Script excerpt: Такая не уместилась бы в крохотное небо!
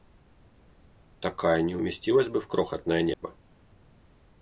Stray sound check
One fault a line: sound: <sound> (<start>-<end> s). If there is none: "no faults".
sound: dropout (3.1-3.2 s)